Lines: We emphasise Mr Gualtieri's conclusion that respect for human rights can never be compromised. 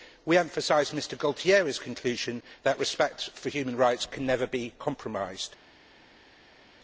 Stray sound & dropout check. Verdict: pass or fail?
pass